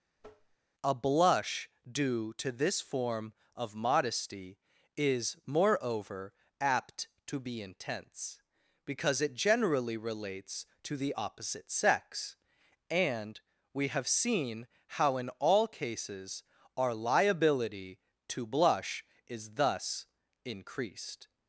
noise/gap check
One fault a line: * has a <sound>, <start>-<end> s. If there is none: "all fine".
* has a tap, 0.2-0.6 s